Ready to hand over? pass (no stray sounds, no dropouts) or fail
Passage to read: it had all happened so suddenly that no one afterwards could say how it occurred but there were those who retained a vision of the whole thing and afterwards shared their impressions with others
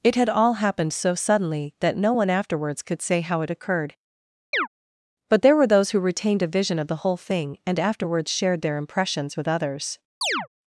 fail